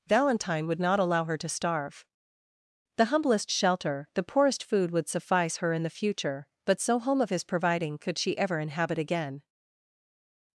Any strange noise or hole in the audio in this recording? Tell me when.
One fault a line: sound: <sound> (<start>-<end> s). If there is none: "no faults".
no faults